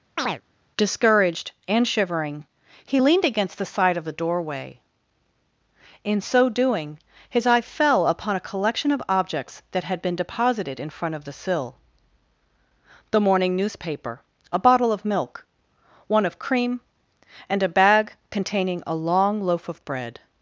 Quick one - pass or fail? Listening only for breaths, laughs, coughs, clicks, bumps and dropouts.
fail